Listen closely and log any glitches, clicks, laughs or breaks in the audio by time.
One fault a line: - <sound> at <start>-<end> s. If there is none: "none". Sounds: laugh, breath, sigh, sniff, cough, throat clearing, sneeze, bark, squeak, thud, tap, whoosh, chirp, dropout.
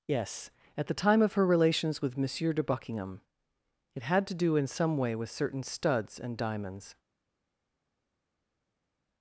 none